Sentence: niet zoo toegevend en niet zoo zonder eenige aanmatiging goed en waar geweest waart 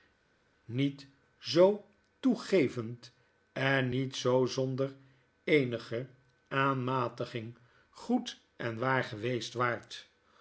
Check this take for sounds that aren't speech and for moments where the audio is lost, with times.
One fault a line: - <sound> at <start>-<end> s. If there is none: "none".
none